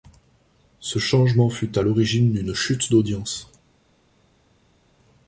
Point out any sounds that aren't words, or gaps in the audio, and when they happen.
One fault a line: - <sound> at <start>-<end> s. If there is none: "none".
none